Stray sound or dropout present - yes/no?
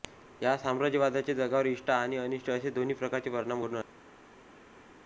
no